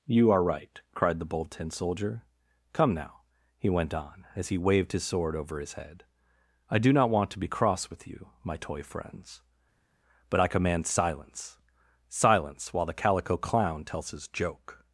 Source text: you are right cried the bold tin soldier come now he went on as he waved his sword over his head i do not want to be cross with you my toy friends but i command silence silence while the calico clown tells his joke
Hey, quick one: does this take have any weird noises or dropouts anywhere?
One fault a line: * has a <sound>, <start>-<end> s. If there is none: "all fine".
all fine